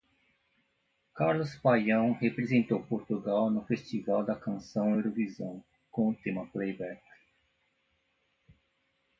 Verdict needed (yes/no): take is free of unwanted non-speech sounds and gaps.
yes